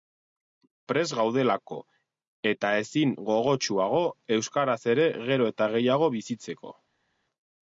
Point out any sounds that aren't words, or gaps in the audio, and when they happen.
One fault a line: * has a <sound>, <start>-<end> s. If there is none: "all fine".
all fine